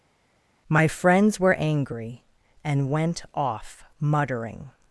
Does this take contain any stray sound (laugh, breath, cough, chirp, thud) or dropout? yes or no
no